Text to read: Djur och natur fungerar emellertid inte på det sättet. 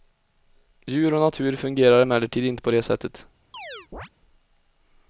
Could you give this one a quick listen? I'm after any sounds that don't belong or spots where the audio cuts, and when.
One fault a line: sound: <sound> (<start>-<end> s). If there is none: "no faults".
sound: chirp (3.5-4.1 s)